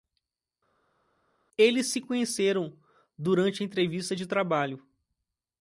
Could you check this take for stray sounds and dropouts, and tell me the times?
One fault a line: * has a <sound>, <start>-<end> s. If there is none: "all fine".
all fine